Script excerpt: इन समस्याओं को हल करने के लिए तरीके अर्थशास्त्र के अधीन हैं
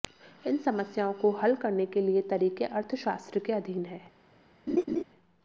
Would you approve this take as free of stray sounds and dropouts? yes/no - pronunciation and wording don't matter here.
no